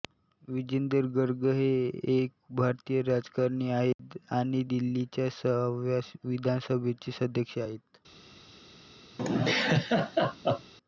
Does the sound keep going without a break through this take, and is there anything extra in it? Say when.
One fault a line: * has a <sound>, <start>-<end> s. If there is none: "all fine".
* has a dropout, 3.9-4.0 s
* has a laugh, 9.2-10.7 s